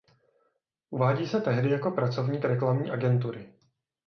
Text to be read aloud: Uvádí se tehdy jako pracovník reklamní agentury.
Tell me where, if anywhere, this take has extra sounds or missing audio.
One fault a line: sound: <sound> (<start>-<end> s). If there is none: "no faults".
no faults